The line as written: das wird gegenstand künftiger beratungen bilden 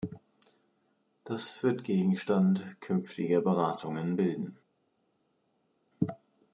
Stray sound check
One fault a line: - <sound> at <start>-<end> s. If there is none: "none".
none